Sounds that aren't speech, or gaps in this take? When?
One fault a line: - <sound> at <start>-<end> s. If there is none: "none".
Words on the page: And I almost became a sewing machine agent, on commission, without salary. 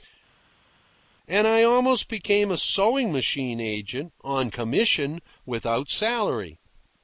none